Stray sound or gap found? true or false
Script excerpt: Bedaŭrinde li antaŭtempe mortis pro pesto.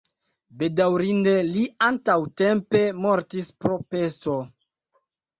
false